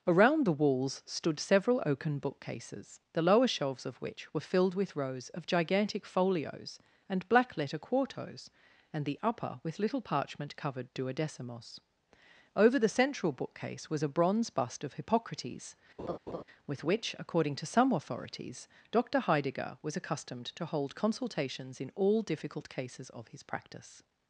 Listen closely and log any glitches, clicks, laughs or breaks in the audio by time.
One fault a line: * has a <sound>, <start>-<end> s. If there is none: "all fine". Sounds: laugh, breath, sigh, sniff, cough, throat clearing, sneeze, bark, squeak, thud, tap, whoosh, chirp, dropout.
* has a laugh, 16.0-16.4 s